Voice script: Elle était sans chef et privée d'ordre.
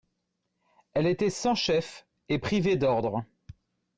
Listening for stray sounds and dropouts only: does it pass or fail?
pass